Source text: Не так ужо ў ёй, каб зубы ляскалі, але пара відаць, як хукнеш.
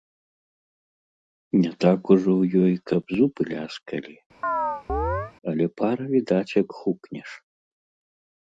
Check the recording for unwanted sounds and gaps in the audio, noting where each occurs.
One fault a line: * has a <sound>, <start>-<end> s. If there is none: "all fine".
* has a chirp, 4.4-5.3 s